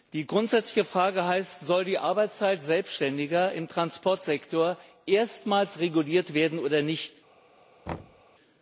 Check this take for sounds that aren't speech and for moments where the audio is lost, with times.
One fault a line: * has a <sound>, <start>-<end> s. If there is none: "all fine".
* has a thud, 7.9-8.2 s